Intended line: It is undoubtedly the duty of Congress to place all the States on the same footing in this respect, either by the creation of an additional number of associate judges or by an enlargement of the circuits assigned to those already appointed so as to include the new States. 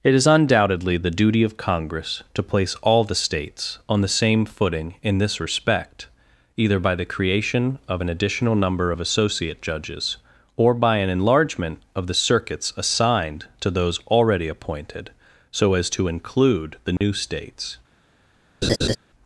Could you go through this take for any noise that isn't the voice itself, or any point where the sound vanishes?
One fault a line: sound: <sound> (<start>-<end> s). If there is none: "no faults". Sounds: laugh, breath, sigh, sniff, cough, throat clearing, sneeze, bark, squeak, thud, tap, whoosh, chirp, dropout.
sound: dropout (17.0-17.0 s)
sound: laugh (18.6-19.0 s)